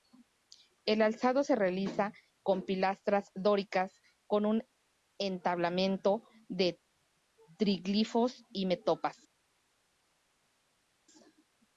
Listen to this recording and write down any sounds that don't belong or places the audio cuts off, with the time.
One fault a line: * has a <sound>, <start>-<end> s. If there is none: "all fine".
all fine